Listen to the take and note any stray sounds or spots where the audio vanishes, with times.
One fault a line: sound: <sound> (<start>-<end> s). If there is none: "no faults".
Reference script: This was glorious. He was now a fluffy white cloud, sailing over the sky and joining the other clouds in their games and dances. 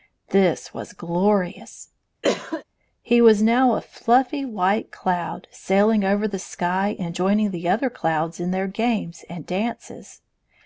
sound: cough (2.2-2.6 s)